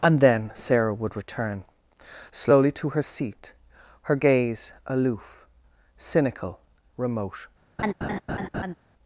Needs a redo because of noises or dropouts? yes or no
yes